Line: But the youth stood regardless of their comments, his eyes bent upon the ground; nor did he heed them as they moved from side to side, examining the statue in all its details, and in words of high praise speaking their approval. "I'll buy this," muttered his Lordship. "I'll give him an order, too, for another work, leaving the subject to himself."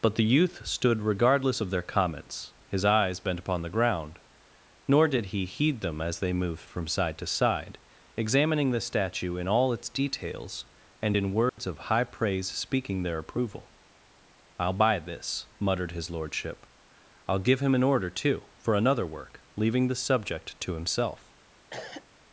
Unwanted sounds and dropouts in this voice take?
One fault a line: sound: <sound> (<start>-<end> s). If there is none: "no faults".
sound: dropout (11.5-11.6 s)
sound: cough (21.7-22.1 s)